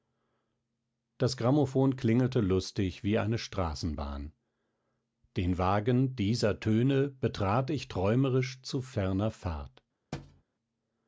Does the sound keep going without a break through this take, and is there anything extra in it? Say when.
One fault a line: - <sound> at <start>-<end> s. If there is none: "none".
- thud at 10.1-10.4 s